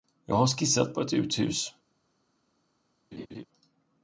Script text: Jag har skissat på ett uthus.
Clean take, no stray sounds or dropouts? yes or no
no